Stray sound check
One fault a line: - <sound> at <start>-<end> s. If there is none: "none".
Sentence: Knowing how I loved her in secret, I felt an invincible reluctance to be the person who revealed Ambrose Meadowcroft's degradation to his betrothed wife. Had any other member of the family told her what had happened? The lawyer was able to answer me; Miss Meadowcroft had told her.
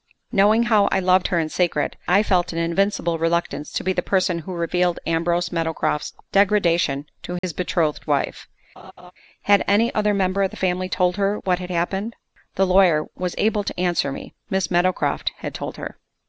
- dropout at 7.4-7.4 s
- laugh at 8.8-9.1 s